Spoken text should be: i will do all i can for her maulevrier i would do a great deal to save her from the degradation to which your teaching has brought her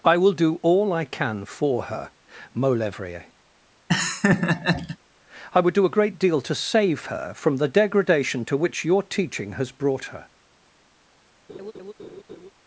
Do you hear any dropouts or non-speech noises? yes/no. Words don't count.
yes